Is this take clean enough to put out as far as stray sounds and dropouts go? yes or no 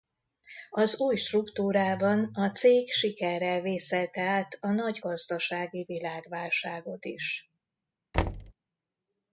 no